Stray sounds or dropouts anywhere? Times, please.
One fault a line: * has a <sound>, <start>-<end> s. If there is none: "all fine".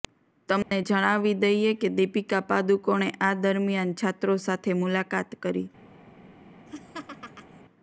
* has a dropout, 0.6-0.7 s
* has a laugh, 6.7-7.6 s